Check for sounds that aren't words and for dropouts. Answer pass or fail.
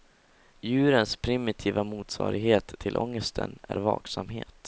pass